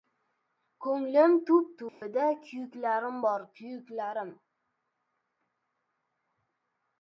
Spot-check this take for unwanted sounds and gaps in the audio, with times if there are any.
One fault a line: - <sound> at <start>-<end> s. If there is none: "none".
- dropout at 1.9-2.0 s